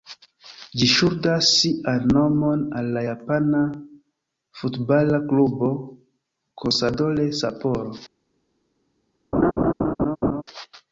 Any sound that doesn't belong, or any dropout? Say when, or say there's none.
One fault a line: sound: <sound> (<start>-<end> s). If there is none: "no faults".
sound: laugh (9.3-10.4 s)